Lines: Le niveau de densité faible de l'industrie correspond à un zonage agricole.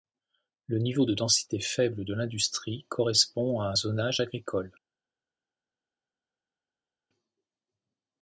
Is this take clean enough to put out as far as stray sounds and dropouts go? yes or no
yes